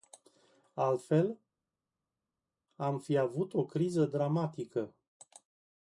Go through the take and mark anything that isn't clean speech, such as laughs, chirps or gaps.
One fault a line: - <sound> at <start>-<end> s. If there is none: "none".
none